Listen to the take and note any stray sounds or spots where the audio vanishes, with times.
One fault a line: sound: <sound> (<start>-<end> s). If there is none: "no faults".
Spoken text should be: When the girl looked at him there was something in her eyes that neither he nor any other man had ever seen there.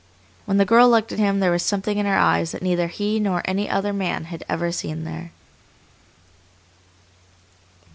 no faults